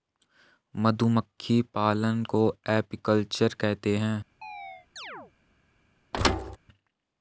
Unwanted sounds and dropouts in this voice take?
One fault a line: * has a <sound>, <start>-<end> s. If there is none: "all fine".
* has a chirp, 4.4-5.3 s
* has a thud, 6.1-6.6 s